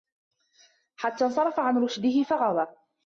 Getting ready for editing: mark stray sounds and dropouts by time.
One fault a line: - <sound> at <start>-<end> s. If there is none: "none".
none